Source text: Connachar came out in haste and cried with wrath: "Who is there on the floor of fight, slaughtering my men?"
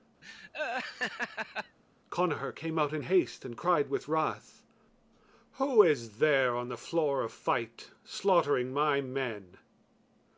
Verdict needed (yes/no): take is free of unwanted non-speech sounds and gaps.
no